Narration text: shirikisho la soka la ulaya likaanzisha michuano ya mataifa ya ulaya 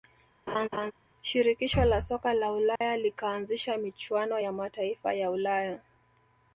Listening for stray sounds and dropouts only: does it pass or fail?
fail